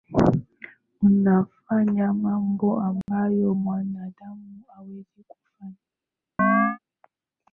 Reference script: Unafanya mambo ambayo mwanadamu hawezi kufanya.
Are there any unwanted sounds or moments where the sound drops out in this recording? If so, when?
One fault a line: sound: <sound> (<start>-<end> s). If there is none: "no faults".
sound: dropout (3.0-3.1 s)
sound: chirp (6.4-6.8 s)